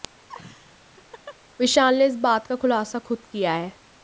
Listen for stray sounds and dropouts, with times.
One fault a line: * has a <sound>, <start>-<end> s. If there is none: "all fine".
* has a laugh, 0.3-1.4 s